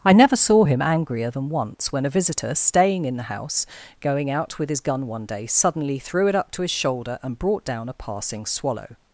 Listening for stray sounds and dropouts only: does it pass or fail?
pass